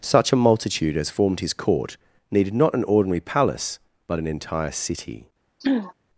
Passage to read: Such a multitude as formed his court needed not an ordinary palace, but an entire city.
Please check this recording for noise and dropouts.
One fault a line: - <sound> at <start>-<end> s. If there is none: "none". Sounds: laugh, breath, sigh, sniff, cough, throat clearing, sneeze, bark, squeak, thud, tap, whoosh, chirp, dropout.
- throat clearing at 5.6-5.9 s